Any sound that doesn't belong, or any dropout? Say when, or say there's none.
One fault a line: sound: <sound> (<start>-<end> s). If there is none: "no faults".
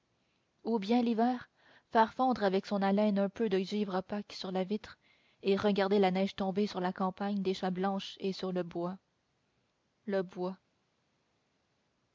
no faults